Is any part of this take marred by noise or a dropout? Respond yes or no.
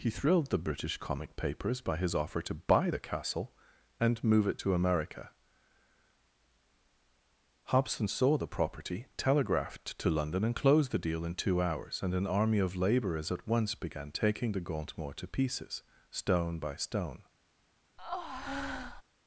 yes